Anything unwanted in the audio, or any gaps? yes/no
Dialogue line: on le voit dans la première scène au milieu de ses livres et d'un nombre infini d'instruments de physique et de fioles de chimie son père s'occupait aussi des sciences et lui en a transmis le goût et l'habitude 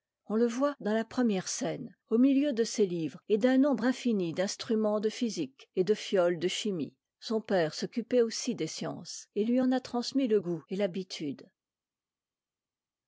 no